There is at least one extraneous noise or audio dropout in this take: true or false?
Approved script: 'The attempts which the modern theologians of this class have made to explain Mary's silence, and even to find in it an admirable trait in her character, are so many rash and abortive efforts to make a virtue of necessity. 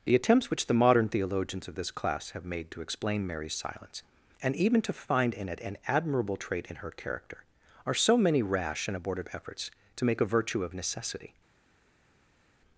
false